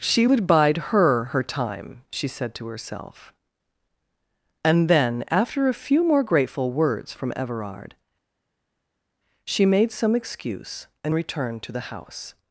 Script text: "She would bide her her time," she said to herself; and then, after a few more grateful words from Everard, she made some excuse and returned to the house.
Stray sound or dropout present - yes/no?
no